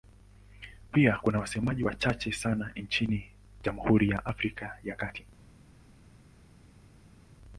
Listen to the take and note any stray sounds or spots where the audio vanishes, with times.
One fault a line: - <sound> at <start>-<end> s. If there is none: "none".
none